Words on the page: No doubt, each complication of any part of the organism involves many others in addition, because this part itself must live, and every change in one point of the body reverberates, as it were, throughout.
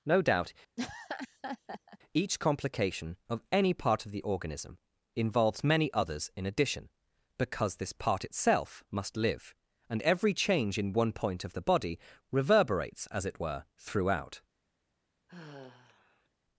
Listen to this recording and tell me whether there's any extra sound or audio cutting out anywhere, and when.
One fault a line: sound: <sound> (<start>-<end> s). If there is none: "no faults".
sound: laugh (0.8-2.0 s)
sound: sigh (15.3-16.3 s)